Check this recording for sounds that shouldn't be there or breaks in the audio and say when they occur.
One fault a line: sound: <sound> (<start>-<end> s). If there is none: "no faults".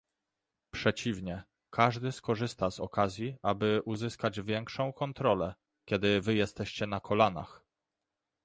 no faults